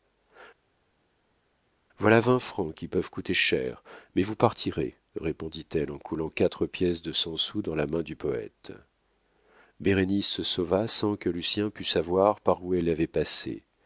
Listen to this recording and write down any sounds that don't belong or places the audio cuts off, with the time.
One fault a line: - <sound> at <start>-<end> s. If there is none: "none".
none